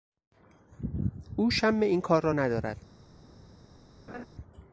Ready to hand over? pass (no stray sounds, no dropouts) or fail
fail